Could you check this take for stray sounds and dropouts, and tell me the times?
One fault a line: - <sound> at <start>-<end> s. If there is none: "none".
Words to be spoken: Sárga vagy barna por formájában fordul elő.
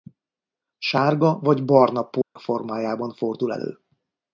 - dropout at 2.2-2.4 s